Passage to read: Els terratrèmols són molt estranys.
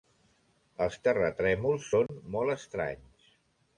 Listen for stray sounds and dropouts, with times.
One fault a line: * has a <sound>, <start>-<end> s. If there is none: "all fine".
* has a dropout, 2.1-2.1 s